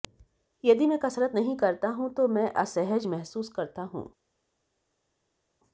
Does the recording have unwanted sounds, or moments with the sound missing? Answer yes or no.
no